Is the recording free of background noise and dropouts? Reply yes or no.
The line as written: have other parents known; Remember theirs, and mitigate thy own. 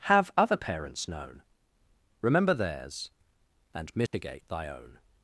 no